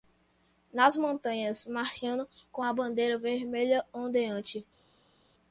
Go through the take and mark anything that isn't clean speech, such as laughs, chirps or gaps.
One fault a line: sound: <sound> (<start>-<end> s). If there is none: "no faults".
no faults